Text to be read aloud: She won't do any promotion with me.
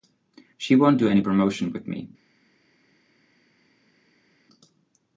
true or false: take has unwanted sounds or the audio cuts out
false